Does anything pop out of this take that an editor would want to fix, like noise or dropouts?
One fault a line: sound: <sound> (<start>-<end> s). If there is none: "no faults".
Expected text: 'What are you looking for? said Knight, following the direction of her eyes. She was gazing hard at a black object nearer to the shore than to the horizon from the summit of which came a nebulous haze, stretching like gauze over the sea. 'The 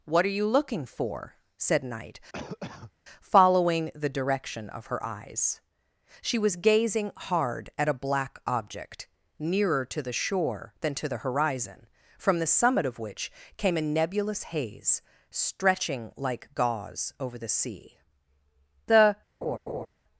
sound: cough (2.3-2.9 s)
sound: laugh (19.4-19.9 s)